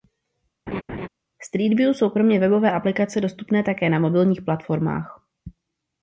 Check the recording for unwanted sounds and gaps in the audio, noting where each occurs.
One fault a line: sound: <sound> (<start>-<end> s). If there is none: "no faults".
sound: laugh (0.7-1.1 s)